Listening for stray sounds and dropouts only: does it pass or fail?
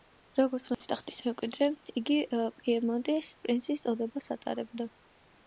fail